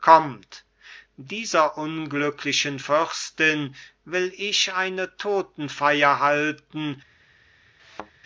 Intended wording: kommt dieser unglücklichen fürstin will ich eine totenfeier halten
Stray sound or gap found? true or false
true